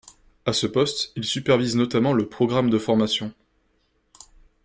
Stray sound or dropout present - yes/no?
no